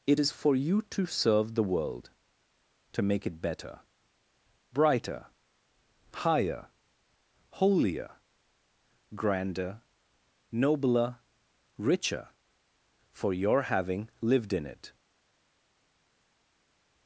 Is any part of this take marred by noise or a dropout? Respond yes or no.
no